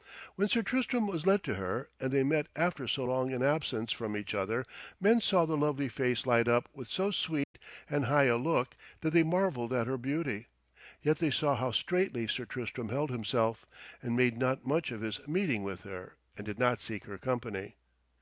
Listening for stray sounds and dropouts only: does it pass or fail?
fail